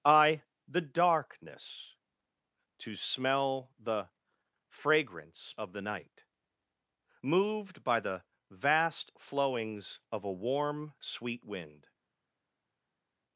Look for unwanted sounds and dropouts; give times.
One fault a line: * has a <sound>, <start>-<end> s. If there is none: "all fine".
all fine